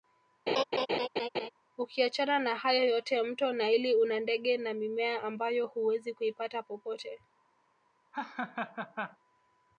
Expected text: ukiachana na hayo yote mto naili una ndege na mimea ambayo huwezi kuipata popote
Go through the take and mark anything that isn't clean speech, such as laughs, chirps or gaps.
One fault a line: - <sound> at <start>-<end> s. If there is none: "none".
- laugh at 0.5-1.5 s
- laugh at 8.1-9.2 s